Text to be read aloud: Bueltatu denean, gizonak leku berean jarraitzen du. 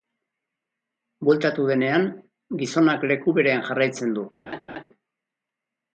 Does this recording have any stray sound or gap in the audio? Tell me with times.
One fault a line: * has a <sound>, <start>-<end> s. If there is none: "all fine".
* has a laugh, 4.5-4.8 s